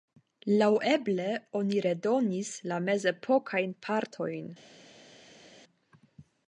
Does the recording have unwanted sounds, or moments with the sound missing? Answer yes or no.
no